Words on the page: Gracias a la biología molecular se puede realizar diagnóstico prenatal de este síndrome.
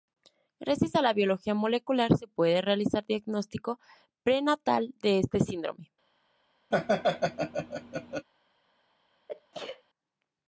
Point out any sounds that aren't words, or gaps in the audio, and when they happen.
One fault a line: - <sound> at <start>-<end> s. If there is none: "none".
- laugh at 6.7-8.3 s
- sneeze at 9.3-9.8 s